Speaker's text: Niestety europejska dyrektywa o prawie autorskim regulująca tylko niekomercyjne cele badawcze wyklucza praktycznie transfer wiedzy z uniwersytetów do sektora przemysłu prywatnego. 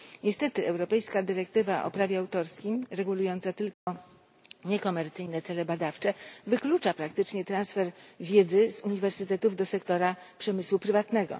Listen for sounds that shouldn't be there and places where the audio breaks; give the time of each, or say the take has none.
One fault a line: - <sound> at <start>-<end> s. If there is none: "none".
- dropout at 3.7-3.9 s